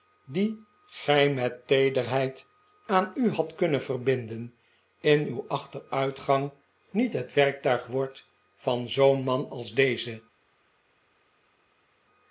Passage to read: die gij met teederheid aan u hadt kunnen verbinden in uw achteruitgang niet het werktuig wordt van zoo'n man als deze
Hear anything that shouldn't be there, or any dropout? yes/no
no